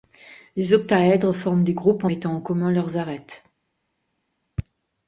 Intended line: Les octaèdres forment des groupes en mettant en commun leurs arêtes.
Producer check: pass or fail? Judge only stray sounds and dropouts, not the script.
pass